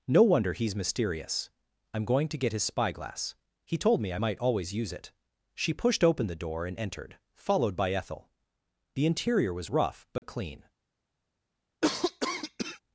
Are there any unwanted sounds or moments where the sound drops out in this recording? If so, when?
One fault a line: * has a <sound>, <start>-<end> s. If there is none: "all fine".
* has a dropout, 10.2-10.2 s
* has a cough, 11.8-12.8 s